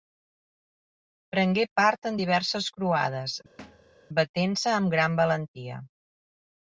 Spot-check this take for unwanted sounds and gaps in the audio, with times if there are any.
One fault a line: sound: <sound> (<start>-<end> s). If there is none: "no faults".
sound: thud (3.6-4.0 s)